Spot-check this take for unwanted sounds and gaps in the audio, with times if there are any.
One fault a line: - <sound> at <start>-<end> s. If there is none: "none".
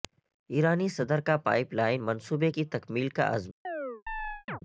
- chirp at 3.6-4.6 s